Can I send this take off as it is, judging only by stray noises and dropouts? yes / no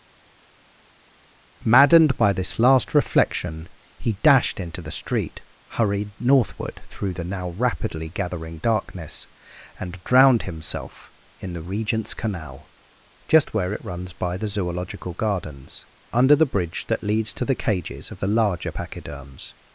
yes